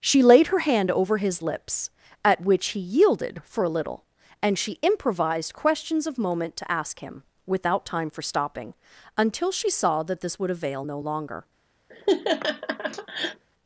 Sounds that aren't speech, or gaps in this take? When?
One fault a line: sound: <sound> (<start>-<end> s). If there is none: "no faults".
sound: laugh (11.9-13.4 s)